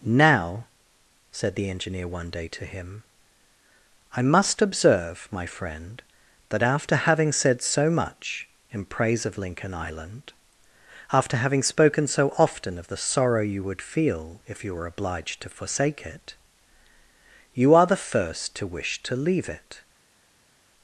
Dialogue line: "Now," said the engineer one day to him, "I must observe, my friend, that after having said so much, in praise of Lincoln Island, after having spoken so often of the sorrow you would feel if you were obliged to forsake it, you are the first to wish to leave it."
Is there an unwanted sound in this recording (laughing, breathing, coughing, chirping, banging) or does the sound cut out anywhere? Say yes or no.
no